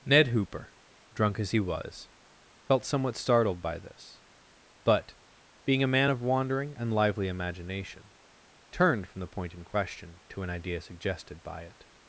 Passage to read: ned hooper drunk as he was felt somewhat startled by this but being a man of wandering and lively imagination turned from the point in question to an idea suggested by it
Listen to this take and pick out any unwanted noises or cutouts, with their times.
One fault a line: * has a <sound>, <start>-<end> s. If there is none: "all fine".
all fine